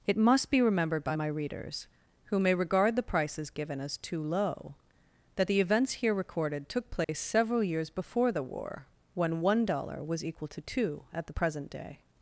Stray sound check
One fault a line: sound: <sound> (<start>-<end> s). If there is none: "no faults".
sound: dropout (7.0-7.1 s)